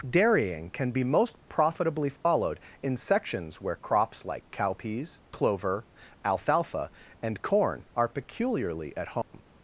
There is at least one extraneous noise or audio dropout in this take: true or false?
true